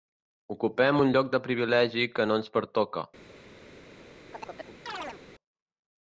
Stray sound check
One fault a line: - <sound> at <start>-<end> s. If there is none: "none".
- chirp at 4.3-5.2 s